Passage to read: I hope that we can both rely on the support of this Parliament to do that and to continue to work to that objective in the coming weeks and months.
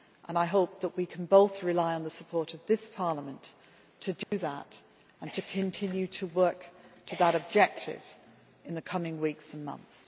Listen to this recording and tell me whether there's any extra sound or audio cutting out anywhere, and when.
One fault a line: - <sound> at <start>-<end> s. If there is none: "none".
- dropout at 4.2-4.3 s